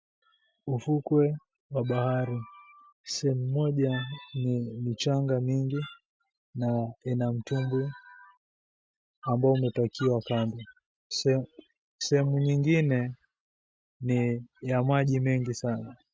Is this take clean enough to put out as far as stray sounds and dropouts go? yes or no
yes